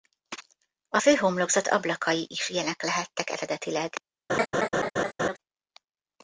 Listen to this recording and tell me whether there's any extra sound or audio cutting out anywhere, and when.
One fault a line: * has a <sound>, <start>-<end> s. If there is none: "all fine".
* has a laugh, 4.3-5.4 s